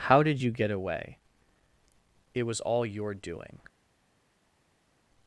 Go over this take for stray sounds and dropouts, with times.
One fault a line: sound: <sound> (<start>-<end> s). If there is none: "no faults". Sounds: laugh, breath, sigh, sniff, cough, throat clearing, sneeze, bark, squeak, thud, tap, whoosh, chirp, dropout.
no faults